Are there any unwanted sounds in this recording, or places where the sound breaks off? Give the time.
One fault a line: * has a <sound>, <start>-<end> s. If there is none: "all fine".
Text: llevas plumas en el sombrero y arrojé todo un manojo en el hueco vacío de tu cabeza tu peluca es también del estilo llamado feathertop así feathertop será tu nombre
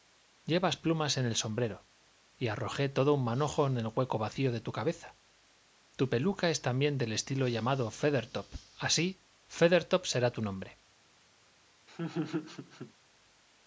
* has a laugh, 11.9-12.9 s